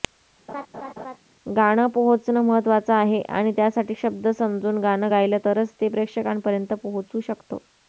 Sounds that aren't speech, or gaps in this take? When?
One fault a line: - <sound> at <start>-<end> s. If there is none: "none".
- laugh at 0.5-1.2 s